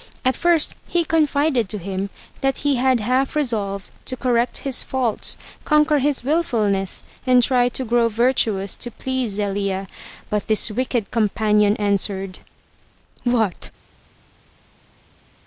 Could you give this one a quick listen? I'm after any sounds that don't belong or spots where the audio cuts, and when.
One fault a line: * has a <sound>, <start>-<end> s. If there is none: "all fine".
all fine